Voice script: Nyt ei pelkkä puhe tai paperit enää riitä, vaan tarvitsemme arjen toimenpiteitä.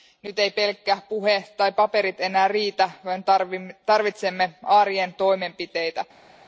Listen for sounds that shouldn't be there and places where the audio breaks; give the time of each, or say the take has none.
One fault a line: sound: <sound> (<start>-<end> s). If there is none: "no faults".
no faults